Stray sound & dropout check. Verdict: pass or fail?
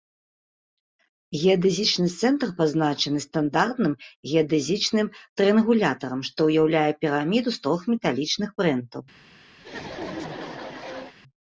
fail